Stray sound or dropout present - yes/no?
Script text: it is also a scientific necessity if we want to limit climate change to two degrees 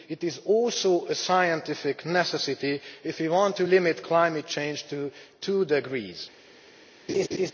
yes